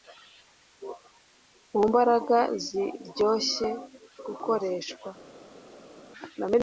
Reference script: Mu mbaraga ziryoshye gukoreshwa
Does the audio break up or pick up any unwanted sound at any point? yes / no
no